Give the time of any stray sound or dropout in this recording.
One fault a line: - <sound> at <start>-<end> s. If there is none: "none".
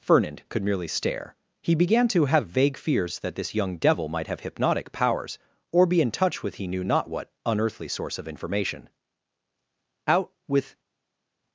none